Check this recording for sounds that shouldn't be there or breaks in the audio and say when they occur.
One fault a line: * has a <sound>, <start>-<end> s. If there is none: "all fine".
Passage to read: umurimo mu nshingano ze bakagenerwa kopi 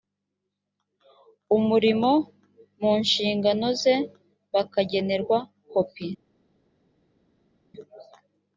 all fine